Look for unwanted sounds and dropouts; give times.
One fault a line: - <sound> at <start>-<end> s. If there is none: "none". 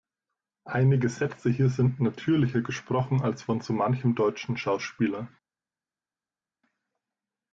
none